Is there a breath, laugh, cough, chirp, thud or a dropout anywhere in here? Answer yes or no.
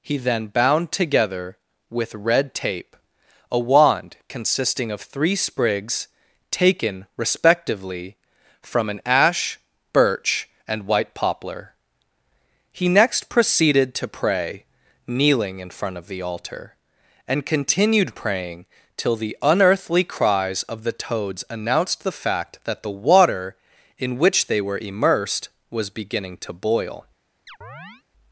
yes